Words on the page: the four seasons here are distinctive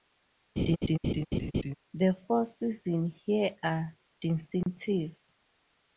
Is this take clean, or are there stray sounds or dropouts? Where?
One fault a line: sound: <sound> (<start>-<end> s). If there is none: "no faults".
sound: laugh (0.6-1.7 s)
sound: dropout (4.6-4.7 s)